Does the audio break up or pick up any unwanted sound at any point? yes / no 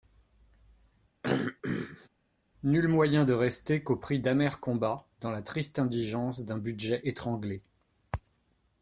yes